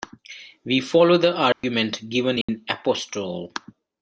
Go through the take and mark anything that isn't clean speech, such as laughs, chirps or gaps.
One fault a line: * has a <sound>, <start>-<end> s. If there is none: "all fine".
* has a dropout, 1.5-1.6 s
* has a dropout, 2.4-2.5 s